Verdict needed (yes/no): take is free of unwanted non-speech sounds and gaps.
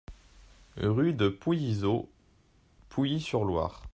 yes